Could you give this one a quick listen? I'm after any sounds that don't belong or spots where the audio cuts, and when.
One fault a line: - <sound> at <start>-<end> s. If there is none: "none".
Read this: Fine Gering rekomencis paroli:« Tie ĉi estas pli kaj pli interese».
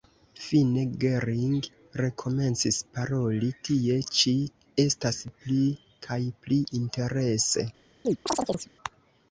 - chirp at 8.0-8.7 s